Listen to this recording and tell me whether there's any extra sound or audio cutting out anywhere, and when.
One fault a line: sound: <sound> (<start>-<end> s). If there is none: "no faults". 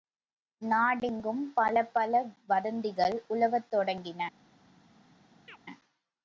sound: chirp (5.5-5.6 s)